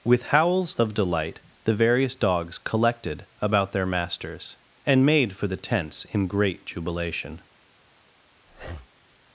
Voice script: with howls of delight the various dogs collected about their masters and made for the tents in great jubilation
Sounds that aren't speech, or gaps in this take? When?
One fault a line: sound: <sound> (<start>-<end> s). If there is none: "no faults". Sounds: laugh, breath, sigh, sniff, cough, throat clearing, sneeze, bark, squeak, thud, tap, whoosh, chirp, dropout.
sound: breath (8.5-8.9 s)